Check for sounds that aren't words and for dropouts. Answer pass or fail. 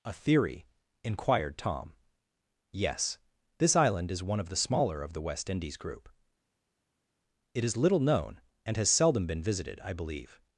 pass